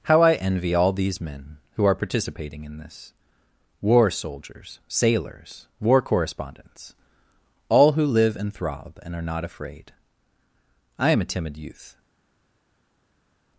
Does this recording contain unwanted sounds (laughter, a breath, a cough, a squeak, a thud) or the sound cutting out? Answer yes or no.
no